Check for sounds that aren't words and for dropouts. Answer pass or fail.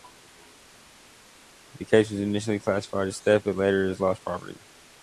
pass